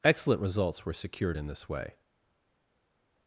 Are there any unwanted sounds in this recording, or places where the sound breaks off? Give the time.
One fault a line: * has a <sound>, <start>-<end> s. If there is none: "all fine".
all fine